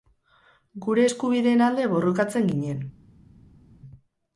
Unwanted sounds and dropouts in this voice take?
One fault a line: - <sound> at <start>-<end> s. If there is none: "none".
none